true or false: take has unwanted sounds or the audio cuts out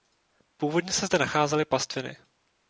false